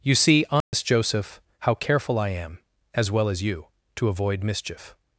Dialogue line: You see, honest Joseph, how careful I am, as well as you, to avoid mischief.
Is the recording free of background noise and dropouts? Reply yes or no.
no